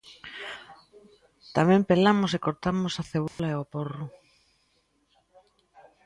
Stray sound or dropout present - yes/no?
yes